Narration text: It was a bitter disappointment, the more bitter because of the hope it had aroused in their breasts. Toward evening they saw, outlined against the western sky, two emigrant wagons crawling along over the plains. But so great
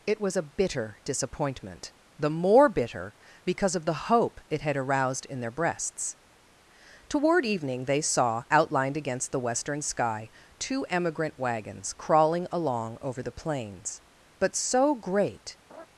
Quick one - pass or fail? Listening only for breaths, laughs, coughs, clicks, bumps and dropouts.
fail